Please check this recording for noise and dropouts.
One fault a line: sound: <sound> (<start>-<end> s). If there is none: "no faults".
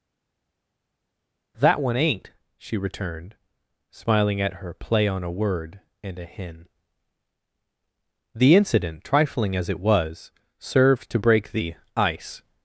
no faults